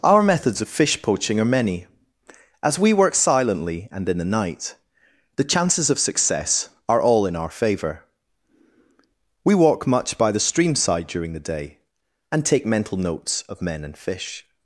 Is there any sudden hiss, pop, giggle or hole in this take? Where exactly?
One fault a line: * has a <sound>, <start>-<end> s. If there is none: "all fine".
all fine